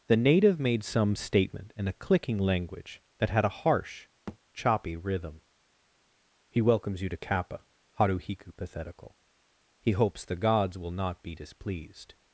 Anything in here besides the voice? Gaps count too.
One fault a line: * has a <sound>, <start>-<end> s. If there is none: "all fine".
* has a thud, 4.3-4.4 s